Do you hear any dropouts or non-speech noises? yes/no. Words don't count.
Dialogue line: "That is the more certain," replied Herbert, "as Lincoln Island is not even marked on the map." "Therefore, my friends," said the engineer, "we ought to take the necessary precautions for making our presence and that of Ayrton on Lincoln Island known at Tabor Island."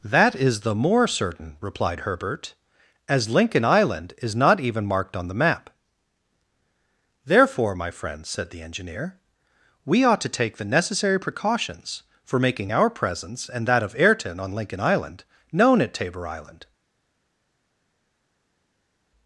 no